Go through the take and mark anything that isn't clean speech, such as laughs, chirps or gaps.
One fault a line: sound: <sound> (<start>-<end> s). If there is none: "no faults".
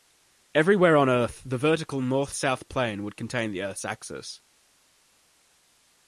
no faults